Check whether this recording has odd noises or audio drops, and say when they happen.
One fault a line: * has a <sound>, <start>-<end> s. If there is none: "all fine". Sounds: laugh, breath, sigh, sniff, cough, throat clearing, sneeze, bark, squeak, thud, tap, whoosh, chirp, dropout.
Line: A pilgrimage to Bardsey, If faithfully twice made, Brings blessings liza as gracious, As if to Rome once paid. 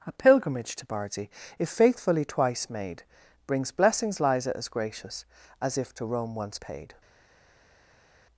all fine